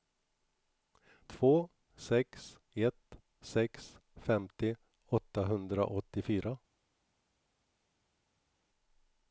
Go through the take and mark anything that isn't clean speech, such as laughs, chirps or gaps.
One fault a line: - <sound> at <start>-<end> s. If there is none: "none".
none